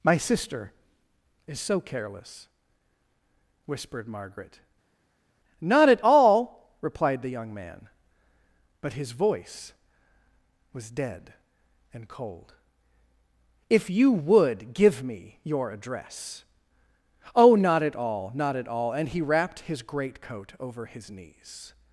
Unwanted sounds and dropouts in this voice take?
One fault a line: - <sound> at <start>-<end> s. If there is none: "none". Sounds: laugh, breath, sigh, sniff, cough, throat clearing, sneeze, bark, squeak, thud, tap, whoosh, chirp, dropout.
none